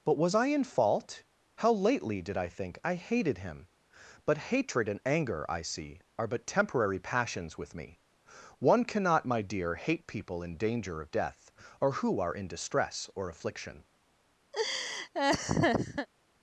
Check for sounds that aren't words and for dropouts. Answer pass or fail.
fail